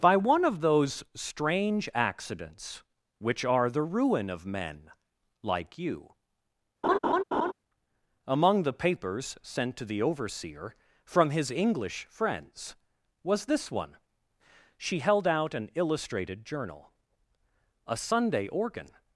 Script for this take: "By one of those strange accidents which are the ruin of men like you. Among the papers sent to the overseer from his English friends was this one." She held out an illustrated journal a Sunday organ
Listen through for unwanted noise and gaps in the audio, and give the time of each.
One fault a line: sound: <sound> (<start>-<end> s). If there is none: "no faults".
sound: laugh (6.8-7.5 s)